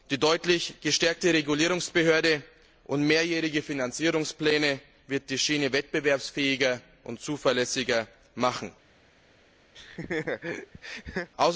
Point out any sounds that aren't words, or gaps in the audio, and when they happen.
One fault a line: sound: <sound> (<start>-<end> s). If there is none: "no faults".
sound: laugh (9.7-11.3 s)